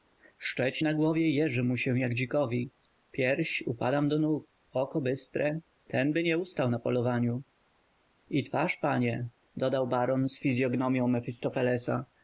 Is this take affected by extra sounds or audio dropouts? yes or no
no